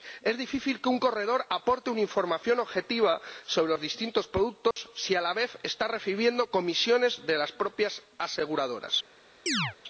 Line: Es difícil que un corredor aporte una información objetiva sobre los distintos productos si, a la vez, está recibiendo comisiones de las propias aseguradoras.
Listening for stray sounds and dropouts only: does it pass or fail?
fail